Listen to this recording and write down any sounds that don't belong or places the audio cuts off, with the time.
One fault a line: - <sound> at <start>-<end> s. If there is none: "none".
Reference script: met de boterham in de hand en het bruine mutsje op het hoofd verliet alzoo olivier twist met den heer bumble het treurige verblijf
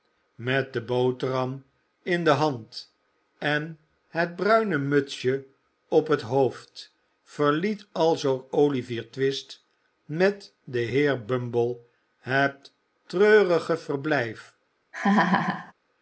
- laugh at 14.9-15.7 s